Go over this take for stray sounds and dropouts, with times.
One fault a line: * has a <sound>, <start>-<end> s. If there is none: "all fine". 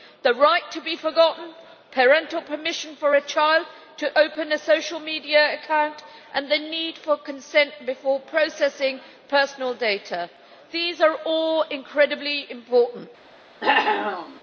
* has a cough, 13.6-14.4 s